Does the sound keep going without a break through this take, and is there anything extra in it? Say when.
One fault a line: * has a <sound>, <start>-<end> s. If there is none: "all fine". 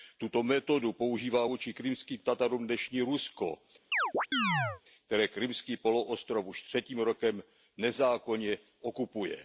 * has a chirp, 3.9-4.8 s